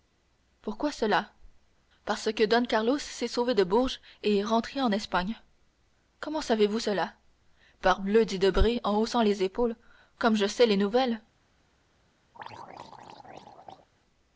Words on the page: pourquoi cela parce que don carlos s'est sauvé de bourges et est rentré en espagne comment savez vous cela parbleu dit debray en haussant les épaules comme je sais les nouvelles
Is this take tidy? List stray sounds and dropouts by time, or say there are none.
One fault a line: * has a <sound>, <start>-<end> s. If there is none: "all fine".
* has a throat clearing, 12.3-13.9 s